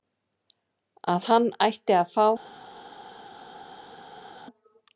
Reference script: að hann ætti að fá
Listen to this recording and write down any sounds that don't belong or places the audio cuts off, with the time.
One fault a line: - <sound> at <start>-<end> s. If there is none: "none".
none